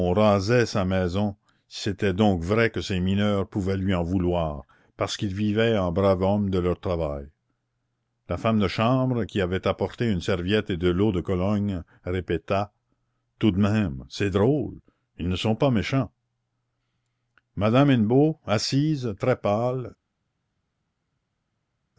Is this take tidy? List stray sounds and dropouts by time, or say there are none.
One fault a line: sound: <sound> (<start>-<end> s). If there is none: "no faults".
no faults